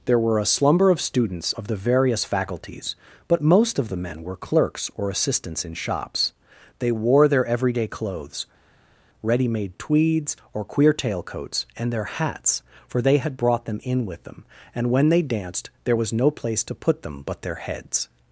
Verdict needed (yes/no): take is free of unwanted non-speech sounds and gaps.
yes